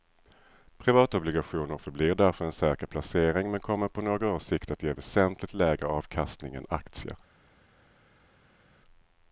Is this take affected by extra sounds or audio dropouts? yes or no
no